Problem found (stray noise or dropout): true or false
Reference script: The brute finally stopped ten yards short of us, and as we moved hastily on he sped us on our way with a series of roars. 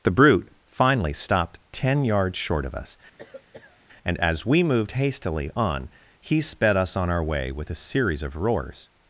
true